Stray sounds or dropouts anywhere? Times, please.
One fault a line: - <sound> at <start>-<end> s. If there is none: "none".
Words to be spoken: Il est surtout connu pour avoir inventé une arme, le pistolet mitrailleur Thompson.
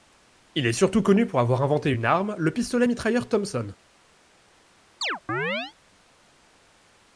- chirp at 5.0-5.7 s